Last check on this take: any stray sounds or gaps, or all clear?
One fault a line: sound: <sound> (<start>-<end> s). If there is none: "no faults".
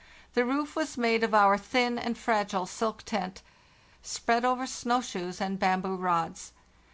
no faults